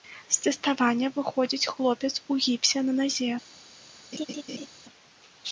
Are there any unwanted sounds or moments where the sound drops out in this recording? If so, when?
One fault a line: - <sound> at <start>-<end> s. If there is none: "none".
- laugh at 4.1-4.7 s